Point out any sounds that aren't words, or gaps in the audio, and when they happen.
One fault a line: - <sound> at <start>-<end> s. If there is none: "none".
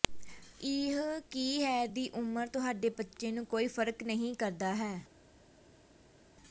none